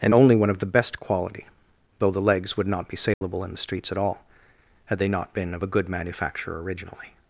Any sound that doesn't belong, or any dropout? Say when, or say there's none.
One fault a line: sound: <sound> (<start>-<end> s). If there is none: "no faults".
sound: dropout (3.1-3.2 s)